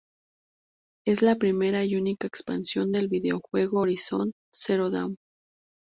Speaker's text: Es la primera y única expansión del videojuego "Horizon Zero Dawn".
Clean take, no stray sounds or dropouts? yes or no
yes